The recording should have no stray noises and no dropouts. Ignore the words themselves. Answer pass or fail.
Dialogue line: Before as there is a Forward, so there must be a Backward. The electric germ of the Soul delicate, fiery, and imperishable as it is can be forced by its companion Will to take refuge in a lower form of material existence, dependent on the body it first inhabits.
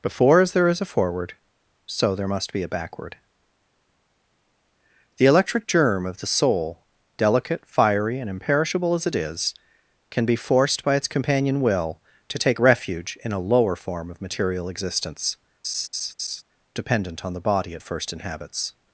fail